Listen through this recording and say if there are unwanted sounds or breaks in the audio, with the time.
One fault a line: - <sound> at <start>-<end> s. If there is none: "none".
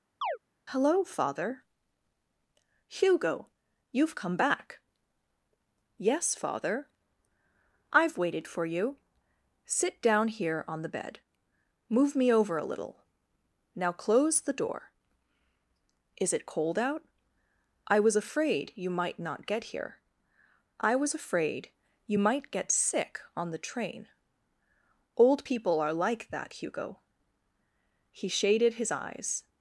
- chirp at 0.2-0.4 s